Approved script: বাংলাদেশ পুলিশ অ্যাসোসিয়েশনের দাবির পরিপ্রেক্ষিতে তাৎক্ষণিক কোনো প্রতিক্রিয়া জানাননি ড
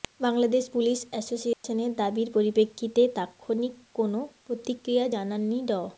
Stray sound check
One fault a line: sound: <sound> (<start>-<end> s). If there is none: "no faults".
sound: dropout (1.5-1.6 s)